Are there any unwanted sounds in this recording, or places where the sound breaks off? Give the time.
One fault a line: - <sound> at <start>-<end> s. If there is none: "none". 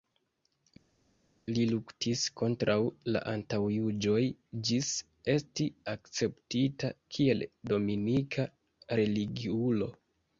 none